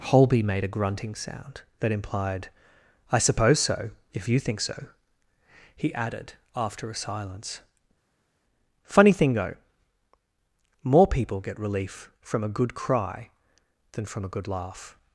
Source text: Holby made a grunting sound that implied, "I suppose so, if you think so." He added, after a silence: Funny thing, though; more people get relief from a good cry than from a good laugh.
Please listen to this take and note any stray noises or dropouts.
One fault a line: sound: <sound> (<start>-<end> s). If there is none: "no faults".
no faults